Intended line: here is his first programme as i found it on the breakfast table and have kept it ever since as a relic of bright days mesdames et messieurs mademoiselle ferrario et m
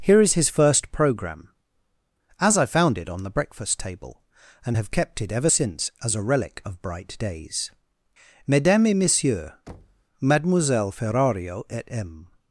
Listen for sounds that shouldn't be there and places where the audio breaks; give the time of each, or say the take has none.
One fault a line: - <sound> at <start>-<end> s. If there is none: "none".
- thud at 9.7-10.0 s